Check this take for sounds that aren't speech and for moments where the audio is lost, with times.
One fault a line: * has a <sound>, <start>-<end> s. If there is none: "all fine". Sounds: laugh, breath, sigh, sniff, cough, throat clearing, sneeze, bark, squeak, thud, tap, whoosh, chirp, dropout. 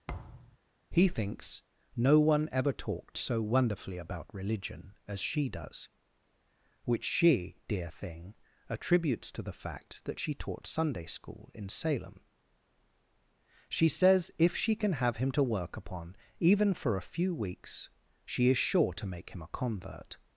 * has a thud, 0.1-0.6 s